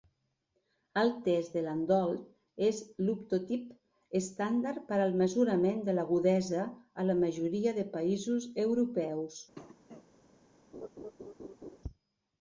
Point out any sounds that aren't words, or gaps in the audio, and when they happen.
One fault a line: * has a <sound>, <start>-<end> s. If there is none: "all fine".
* has a cough, 9.5-10.1 s
* has a laugh, 10.7-11.8 s